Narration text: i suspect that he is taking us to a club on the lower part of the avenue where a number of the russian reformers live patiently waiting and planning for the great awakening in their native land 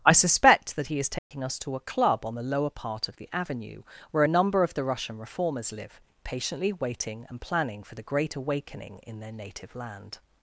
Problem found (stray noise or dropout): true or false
true